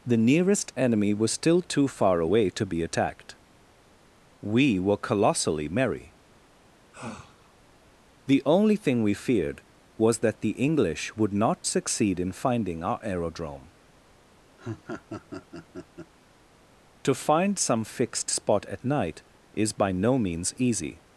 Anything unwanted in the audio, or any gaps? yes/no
yes